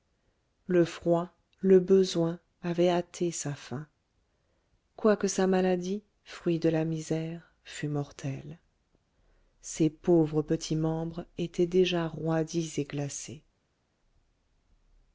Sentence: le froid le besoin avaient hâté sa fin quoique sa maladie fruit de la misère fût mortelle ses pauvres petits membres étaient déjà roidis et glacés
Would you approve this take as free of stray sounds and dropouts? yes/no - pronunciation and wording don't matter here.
yes